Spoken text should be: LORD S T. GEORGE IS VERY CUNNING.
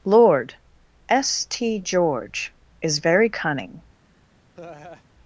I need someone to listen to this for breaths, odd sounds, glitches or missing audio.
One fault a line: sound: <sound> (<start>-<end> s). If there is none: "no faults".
sound: laugh (4.5-5.0 s)